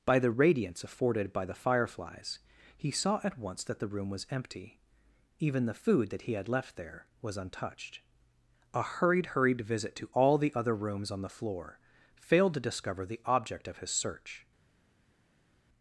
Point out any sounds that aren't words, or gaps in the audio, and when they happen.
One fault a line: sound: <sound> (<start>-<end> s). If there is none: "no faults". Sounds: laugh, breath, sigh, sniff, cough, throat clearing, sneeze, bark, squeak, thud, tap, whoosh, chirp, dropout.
no faults